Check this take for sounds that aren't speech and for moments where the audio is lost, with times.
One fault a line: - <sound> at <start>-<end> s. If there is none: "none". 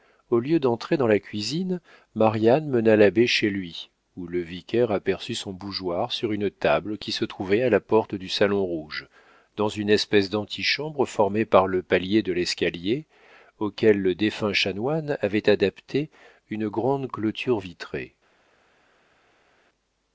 none